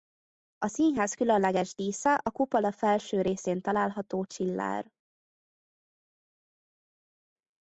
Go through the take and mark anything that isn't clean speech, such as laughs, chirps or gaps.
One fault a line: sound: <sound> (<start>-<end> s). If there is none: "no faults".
no faults